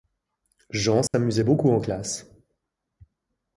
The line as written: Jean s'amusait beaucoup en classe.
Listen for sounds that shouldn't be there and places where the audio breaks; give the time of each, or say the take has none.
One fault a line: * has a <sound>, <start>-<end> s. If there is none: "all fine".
* has a dropout, 1.1-1.1 s